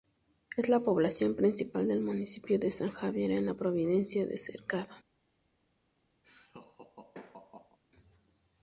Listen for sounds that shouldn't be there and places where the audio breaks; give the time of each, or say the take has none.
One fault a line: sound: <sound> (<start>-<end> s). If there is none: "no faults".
sound: laugh (6.2-7.8 s)